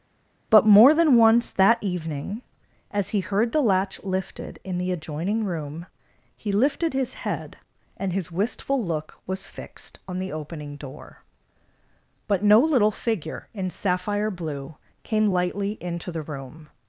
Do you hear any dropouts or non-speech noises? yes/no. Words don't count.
no